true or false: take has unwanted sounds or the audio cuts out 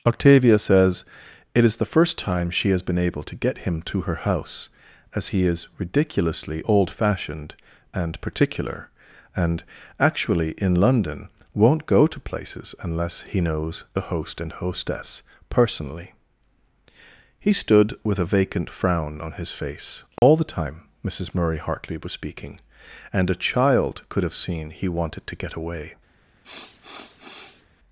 true